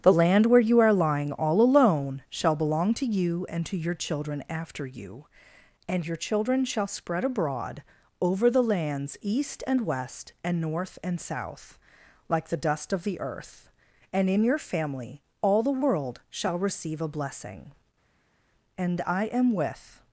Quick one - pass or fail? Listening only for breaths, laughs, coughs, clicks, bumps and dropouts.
pass